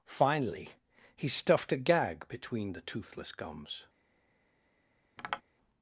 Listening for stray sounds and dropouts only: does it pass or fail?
fail